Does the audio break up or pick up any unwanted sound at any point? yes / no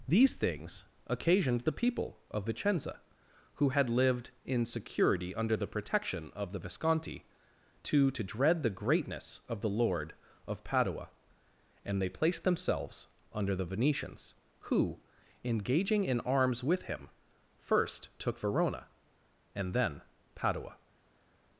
no